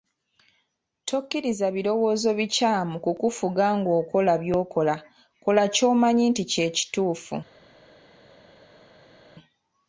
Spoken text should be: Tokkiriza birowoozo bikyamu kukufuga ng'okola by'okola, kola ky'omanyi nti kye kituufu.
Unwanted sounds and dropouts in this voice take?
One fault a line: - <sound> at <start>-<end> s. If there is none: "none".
none